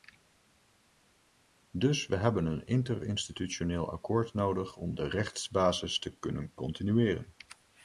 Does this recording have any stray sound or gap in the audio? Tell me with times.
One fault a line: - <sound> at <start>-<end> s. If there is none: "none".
none